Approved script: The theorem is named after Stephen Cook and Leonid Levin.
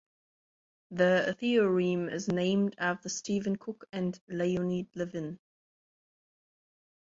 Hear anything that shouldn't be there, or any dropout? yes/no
no